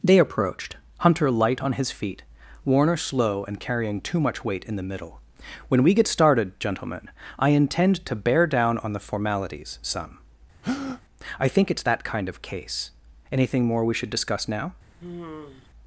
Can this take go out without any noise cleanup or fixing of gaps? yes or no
no